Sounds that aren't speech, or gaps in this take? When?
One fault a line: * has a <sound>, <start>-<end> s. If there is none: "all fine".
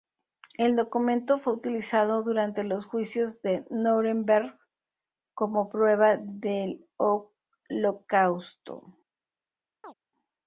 * has a chirp, 9.8-9.9 s